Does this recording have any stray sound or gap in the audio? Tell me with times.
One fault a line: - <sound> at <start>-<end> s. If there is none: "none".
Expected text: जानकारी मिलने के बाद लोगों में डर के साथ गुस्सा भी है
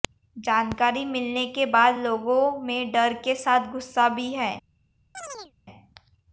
- chirp at 5.1-5.5 s